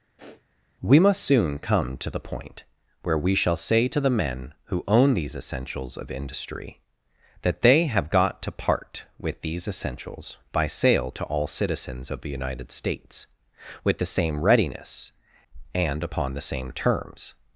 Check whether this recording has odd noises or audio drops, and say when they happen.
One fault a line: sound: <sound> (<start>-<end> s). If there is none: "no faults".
sound: sniff (0.2-0.4 s)